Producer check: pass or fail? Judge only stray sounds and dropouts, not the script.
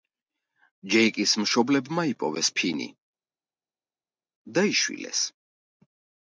pass